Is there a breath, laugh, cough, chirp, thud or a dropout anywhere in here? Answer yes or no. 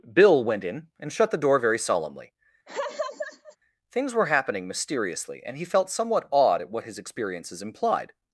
yes